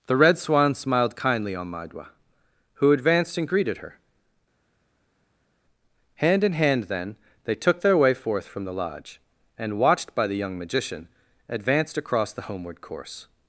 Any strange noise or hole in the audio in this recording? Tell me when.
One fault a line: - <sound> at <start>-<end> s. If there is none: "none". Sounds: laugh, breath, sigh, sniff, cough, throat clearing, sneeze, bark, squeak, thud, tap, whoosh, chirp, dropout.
none